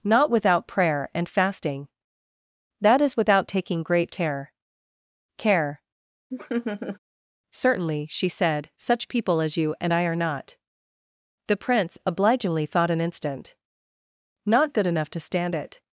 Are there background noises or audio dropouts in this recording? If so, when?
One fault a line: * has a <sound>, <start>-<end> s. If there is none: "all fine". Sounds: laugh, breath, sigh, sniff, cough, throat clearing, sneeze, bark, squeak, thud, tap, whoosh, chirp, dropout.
* has a laugh, 6.3-7.0 s